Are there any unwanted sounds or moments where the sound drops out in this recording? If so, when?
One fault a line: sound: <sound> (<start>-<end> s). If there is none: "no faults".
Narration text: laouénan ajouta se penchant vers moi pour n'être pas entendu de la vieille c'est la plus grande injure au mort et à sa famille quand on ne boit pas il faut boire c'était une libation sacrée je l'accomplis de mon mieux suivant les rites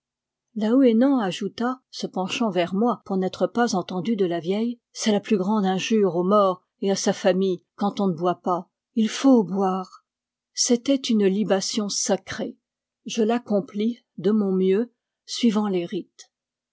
no faults